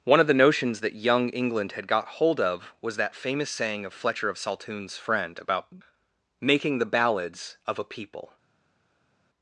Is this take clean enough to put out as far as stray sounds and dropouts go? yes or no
yes